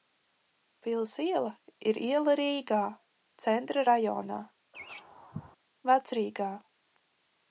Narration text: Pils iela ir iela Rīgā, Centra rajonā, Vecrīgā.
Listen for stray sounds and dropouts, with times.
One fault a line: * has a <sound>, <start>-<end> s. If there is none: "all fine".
* has a laugh, 4.7-5.6 s